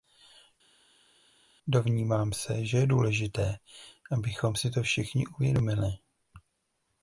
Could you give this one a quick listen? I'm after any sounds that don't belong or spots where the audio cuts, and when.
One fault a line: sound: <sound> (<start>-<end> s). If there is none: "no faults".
no faults